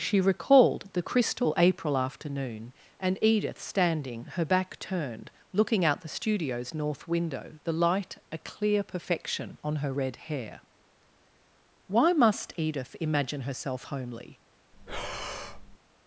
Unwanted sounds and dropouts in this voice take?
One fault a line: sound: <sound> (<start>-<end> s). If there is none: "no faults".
sound: breath (14.7-15.8 s)